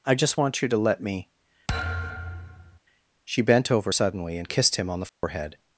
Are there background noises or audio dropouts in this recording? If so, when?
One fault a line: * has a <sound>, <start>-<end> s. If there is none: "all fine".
* has a thud, 1.7-2.8 s
* has a dropout, 5.1-5.2 s